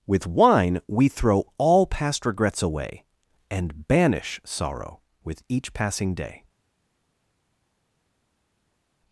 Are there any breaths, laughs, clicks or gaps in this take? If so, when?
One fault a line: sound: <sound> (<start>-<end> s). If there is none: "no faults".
no faults